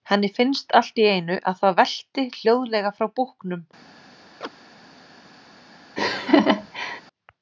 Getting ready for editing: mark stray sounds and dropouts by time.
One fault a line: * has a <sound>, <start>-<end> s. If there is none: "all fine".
* has a chirp, 4.4-4.5 s
* has a laugh, 6.0-7.0 s